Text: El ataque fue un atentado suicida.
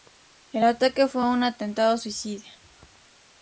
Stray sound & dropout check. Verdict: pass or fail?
pass